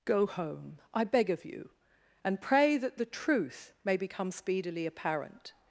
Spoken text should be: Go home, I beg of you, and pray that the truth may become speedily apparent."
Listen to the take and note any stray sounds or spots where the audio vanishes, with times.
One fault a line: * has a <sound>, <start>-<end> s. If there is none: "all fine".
all fine